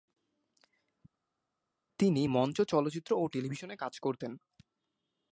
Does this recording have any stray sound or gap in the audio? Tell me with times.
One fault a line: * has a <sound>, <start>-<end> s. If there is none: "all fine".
all fine